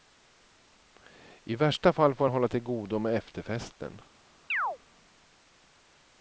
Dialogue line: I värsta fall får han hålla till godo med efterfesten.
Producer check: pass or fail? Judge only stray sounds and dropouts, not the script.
fail